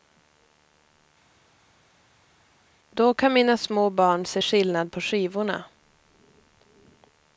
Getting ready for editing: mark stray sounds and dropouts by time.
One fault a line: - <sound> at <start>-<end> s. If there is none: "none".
none